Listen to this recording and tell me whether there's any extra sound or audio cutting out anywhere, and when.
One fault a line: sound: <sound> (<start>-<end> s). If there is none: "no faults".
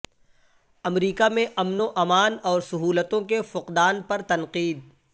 no faults